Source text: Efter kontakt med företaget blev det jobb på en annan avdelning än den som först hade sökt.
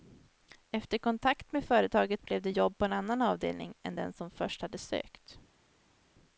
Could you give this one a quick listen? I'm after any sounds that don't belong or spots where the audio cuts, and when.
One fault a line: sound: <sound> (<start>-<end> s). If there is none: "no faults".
no faults